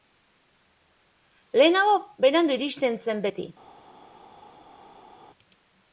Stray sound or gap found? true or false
false